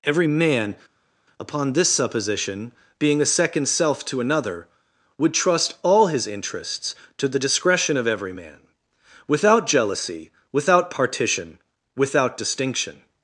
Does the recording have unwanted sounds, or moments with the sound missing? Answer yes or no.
no